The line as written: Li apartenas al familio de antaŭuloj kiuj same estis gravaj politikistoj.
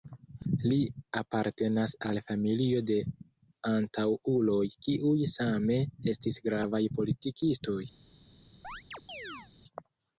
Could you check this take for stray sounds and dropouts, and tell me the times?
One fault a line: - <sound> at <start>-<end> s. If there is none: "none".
- chirp at 8.6-9.5 s